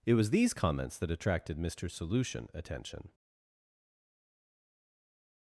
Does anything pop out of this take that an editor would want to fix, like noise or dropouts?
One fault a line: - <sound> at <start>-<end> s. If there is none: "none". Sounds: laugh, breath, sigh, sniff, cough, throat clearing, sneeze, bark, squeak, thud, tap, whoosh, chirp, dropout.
none